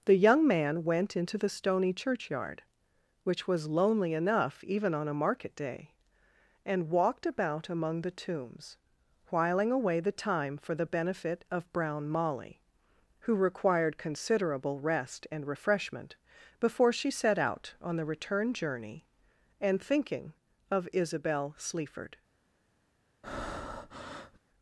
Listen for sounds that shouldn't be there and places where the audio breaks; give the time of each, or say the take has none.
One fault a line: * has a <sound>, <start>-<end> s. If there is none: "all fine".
* has a breath, 23.2-24.4 s